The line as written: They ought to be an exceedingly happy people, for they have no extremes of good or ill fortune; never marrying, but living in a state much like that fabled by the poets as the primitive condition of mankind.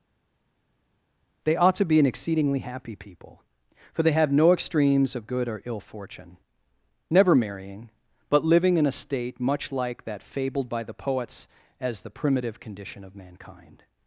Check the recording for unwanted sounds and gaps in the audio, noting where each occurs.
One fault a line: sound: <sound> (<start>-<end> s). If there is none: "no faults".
no faults